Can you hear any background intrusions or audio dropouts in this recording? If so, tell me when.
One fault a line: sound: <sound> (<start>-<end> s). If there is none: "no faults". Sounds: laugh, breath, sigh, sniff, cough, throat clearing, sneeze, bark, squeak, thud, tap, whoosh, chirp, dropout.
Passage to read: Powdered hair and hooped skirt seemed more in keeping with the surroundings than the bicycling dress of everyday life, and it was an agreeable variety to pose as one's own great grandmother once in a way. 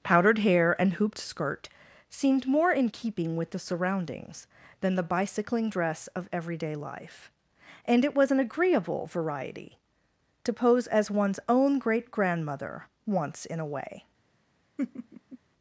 sound: laugh (14.8-15.4 s)